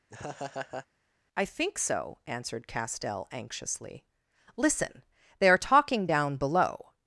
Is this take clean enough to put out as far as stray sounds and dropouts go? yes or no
no